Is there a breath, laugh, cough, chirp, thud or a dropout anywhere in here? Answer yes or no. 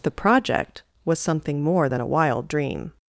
no